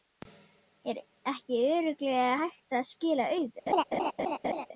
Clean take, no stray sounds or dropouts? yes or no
no